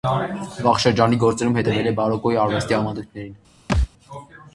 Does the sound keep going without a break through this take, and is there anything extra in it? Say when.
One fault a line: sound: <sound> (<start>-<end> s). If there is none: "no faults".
sound: thud (3.7-3.9 s)